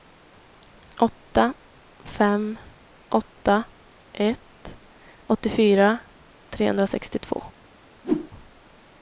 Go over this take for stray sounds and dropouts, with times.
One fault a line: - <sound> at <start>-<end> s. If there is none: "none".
- whoosh at 8.0-8.3 s